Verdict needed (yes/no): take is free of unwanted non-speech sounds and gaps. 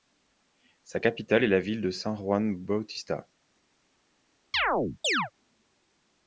no